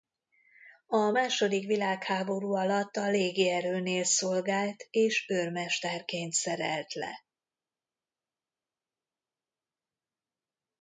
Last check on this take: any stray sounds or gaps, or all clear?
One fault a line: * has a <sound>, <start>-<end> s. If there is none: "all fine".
all fine